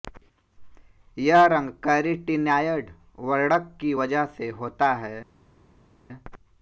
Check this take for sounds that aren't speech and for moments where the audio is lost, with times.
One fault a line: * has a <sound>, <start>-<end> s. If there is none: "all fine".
all fine